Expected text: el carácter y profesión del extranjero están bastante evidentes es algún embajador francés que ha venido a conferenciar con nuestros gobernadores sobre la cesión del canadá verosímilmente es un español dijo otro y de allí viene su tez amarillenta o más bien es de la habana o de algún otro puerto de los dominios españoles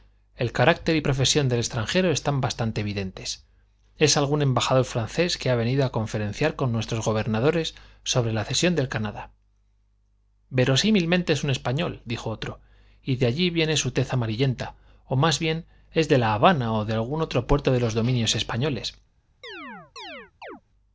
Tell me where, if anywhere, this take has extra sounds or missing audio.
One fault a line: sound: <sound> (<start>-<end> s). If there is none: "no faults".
sound: chirp (19.4-20.6 s)